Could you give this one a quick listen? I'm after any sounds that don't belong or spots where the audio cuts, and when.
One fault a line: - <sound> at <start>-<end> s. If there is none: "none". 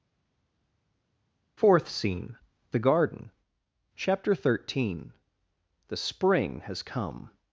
none